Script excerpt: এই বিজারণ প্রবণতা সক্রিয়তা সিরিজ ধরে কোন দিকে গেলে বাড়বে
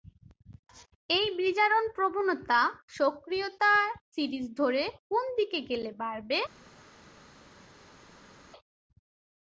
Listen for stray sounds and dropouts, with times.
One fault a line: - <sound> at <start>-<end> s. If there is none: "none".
none